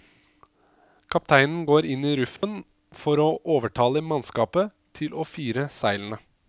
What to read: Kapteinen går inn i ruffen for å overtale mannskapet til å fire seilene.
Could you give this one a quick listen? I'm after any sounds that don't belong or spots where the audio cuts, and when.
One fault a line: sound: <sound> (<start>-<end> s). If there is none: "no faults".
sound: dropout (2.4-2.4 s)